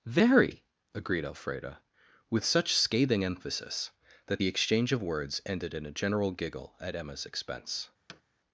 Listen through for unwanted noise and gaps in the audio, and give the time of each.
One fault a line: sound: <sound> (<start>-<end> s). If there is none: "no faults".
sound: thud (8.1-8.2 s)